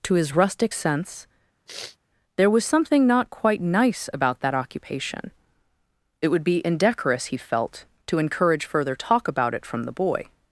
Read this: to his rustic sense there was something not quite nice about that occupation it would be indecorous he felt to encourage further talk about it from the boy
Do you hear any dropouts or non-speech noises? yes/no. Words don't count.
yes